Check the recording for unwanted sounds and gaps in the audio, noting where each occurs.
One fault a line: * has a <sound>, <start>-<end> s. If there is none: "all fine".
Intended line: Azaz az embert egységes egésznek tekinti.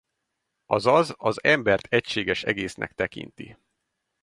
all fine